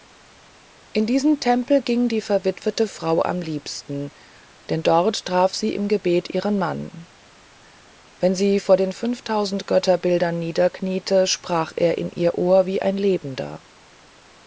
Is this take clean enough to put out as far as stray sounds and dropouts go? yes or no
yes